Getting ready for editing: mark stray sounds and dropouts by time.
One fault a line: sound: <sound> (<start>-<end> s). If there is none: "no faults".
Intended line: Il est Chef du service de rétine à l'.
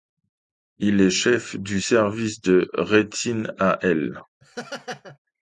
sound: laugh (4.4-5.2 s)